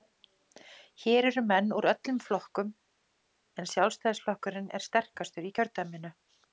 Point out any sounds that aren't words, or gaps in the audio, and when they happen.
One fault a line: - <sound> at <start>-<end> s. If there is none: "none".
none